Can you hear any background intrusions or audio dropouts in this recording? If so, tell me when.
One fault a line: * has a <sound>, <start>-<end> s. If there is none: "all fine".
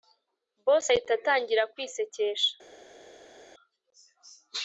all fine